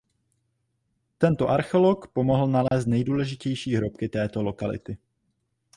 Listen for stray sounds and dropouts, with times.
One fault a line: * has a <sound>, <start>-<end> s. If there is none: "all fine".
* has a dropout, 2.7-2.7 s